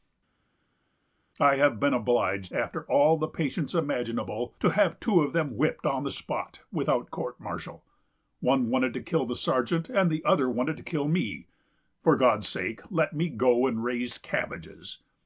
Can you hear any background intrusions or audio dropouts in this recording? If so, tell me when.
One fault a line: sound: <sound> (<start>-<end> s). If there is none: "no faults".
no faults